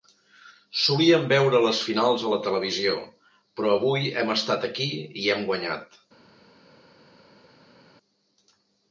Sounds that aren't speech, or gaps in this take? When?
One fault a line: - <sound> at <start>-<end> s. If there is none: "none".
none